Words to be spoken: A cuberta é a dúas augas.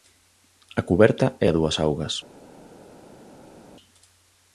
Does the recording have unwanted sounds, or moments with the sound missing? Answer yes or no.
no